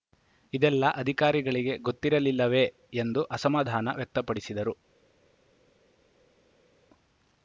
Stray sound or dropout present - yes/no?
no